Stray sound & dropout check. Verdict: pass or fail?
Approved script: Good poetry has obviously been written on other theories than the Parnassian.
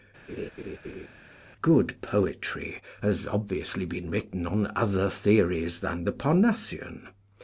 fail